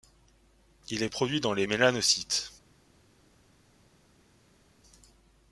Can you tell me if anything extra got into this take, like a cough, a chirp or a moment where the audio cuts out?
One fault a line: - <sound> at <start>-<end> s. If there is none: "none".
none